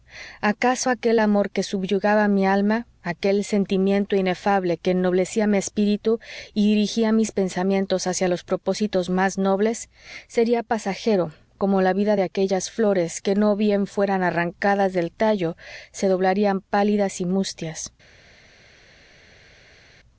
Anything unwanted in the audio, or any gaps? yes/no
no